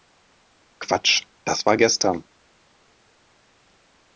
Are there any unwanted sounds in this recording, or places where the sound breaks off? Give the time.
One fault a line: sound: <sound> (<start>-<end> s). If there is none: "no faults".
no faults